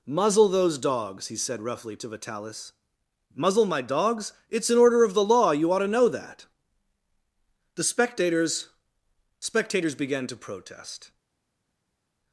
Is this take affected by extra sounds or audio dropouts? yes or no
no